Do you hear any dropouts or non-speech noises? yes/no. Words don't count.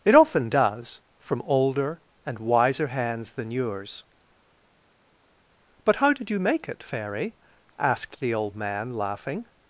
no